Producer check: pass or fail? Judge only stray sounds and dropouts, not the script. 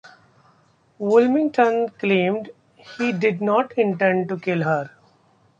pass